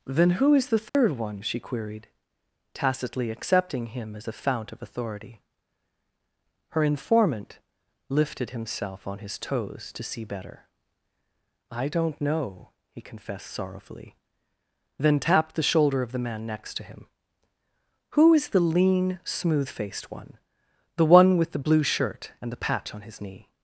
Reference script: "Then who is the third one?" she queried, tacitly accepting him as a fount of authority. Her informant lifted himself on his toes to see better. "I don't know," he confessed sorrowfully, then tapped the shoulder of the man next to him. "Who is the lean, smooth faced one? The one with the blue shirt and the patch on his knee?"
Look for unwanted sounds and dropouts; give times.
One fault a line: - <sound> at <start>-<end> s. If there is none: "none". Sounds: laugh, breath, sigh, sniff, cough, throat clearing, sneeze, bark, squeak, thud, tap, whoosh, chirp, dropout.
- dropout at 0.9-0.9 s